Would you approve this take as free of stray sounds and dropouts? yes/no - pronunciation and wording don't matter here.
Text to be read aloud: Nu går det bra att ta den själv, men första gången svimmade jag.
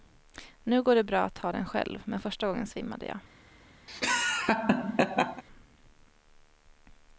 no